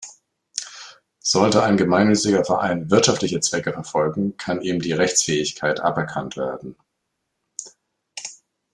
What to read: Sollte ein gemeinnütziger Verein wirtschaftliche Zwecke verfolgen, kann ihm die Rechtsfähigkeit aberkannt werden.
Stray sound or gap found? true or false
false